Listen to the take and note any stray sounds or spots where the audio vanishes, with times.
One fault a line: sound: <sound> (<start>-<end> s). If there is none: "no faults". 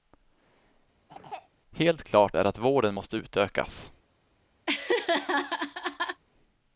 sound: throat clearing (1.1-1.5 s)
sound: laugh (4.7-6.2 s)